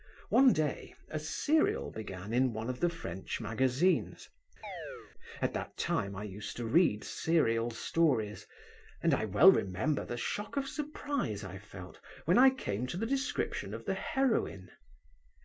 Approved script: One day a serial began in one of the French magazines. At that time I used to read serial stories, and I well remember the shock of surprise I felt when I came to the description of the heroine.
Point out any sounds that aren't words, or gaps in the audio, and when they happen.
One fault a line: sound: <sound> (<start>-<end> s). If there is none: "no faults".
sound: chirp (4.6-5.1 s)